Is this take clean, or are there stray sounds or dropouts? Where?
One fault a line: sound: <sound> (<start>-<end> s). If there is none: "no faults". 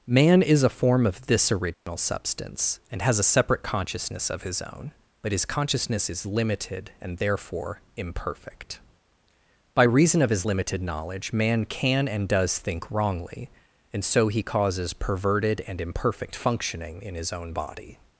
sound: dropout (1.7-1.9 s)